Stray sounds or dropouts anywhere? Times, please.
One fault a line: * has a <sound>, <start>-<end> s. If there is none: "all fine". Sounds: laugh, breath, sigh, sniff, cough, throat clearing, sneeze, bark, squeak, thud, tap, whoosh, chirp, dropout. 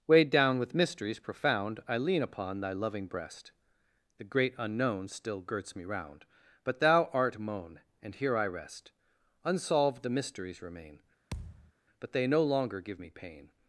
* has a thud, 11.3-11.7 s